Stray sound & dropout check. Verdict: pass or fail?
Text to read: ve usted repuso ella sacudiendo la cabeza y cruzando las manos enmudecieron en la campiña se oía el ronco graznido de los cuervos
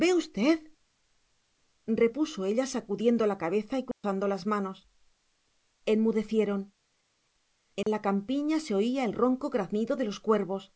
fail